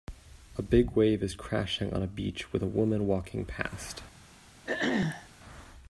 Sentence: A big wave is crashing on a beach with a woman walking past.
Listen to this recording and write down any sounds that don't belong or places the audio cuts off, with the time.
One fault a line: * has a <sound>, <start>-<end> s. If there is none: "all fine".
* has a throat clearing, 4.6-5.3 s